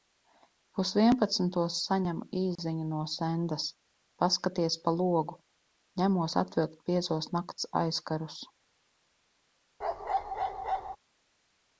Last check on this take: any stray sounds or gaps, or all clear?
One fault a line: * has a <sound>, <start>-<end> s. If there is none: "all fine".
* has a dropout, 2.6-2.6 s
* has a bark, 9.8-11.0 s